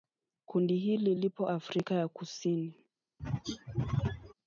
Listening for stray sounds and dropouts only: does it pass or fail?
fail